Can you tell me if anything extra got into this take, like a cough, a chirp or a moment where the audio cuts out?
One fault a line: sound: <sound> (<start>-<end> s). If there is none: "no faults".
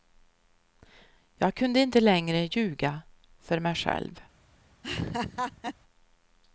sound: laugh (4.8-5.8 s)